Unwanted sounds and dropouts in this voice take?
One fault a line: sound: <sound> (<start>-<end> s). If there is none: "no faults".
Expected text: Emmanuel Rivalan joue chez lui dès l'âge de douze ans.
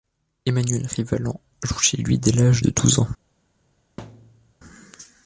sound: thud (4.0-4.5 s)